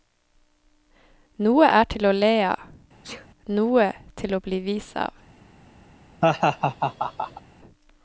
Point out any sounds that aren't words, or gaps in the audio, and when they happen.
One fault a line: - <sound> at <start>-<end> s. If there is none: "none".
- sneeze at 3.0-3.3 s
- laugh at 6.2-7.4 s